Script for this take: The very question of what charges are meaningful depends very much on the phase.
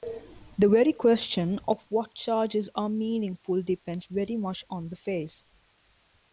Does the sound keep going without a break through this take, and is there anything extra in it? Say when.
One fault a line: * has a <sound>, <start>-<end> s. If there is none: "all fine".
all fine